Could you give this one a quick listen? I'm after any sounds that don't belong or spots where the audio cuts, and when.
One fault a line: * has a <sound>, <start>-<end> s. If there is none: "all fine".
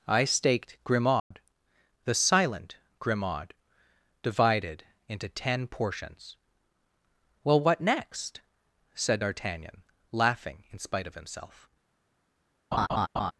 * has a dropout, 1.2-1.3 s
* has a laugh, 12.7-13.3 s